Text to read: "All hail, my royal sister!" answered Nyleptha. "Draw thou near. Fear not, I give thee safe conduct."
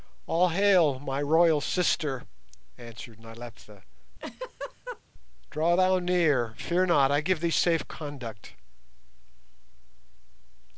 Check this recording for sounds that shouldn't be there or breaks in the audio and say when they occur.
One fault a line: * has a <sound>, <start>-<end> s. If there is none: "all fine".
* has a laugh, 4.2-5.0 s